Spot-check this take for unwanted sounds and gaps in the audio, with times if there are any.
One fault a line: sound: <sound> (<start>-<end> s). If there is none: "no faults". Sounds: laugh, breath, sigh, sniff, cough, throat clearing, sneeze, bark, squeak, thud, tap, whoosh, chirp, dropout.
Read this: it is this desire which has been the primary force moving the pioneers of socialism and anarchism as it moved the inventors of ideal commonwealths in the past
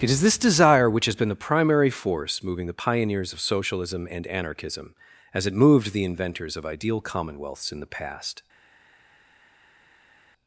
no faults